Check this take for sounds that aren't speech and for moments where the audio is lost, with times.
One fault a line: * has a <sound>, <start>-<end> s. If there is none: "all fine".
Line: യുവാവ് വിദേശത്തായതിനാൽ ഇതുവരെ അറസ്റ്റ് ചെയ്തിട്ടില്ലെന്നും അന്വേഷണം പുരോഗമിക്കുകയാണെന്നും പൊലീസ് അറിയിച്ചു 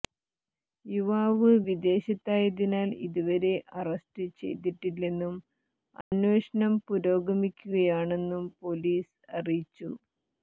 * has a dropout, 6.0-6.1 s